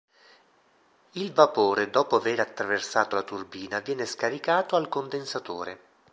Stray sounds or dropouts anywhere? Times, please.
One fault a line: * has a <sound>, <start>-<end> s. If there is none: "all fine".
all fine